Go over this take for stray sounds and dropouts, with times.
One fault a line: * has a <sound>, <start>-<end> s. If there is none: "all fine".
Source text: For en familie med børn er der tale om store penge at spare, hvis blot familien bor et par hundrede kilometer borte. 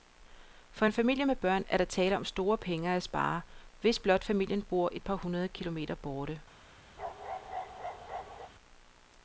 * has a bark, 7.0-8.5 s